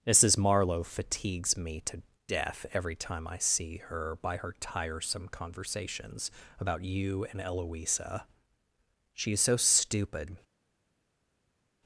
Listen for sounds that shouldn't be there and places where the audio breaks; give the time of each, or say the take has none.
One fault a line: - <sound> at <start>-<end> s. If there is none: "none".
none